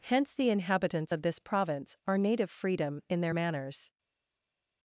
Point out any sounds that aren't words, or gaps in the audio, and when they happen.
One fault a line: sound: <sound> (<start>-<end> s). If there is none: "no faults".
no faults